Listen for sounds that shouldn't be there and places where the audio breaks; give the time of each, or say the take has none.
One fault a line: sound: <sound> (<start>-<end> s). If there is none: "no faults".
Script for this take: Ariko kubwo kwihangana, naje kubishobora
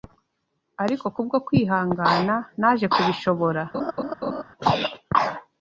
sound: laugh (3.7-4.4 s)